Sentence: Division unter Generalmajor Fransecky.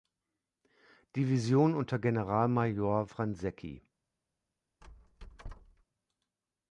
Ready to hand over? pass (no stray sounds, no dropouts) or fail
fail